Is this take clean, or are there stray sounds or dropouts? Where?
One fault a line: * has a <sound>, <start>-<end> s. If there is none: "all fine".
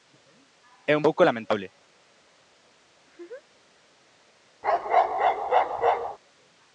* has a laugh, 3.0-3.7 s
* has a bark, 4.6-6.2 s